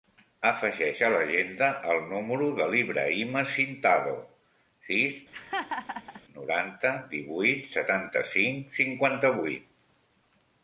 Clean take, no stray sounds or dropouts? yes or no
no